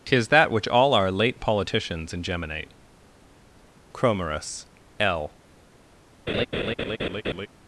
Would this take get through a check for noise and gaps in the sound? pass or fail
fail